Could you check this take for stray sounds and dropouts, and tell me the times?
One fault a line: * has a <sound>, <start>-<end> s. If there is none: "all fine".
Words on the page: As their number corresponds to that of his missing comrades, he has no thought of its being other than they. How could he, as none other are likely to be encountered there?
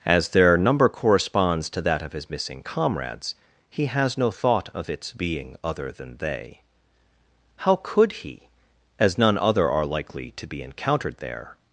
all fine